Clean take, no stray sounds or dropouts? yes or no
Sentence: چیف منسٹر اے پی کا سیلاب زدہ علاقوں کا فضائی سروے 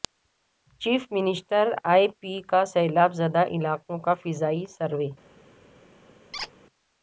no